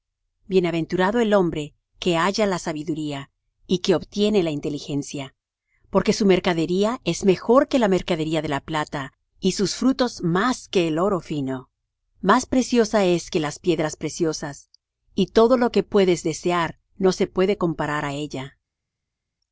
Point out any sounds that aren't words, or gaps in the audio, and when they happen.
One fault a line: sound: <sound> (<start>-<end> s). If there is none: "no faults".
no faults